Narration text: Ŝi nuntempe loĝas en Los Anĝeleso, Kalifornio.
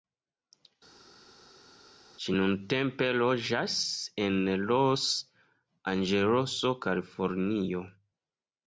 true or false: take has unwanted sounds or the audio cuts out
false